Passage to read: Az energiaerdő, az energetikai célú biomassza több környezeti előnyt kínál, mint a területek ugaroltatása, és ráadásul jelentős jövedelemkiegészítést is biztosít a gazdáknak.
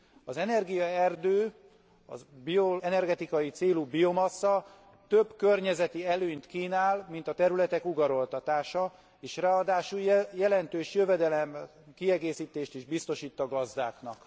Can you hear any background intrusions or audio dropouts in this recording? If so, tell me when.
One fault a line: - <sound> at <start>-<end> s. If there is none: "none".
none